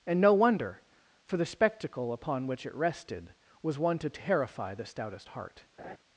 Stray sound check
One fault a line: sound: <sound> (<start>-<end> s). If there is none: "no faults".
sound: laugh (5.8-6.0 s)